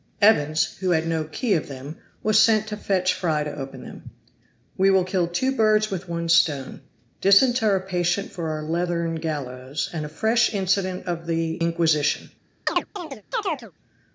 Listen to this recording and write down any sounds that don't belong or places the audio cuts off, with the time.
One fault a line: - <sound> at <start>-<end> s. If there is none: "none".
- chirp at 12.7-13.7 s